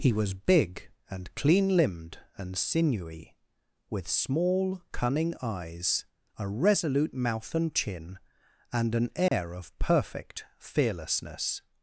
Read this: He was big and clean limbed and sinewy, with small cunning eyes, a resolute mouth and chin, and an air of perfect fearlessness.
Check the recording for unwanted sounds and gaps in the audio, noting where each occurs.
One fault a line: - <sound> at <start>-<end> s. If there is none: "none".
- dropout at 9.3-9.3 s